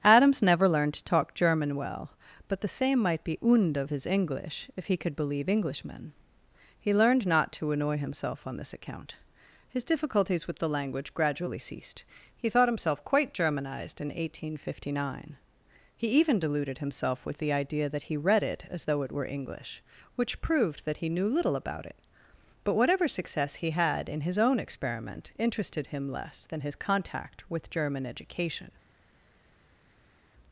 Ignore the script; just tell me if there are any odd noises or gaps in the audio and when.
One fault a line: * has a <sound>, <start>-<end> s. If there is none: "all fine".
all fine